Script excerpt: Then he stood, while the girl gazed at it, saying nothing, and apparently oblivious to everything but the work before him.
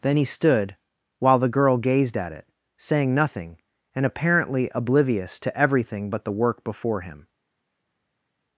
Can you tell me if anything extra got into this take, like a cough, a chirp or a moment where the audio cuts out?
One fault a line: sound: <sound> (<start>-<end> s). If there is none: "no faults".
no faults